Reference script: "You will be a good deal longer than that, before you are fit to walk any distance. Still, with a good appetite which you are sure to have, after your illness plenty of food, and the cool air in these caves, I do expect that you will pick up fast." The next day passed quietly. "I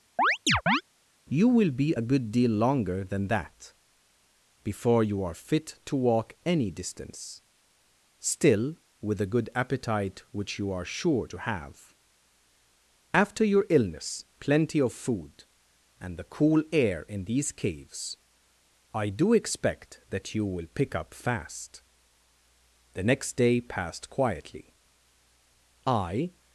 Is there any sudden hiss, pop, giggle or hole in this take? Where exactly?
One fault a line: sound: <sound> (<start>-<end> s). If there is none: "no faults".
sound: chirp (0.2-0.8 s)